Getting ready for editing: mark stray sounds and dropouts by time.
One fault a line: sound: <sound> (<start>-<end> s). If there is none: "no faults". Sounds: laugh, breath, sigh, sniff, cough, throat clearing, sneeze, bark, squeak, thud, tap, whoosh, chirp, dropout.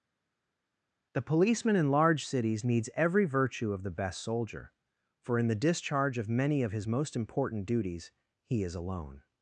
no faults